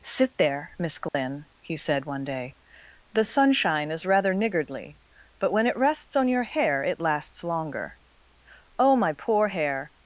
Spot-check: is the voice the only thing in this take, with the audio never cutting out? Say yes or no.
no